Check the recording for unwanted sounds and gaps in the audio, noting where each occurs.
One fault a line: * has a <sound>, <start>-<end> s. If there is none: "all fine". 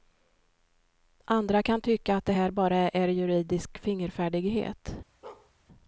* has a bark, 5.2-5.5 s